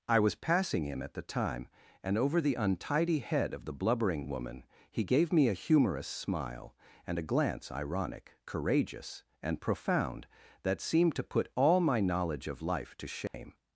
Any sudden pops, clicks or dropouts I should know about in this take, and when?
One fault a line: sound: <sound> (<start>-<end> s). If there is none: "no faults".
sound: dropout (13.3-13.3 s)